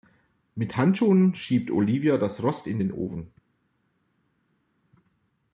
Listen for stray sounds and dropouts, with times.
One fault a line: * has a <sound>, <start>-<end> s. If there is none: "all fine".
all fine